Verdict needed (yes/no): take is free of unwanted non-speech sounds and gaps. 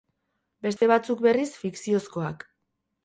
no